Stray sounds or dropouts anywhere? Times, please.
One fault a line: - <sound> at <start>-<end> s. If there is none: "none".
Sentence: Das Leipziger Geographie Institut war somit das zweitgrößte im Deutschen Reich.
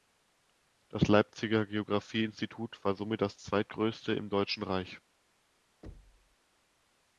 - thud at 5.8-6.4 s